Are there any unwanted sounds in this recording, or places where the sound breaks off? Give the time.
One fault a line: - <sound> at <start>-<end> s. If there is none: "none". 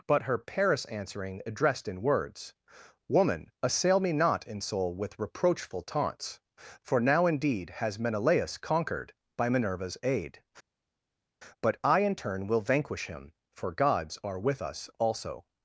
none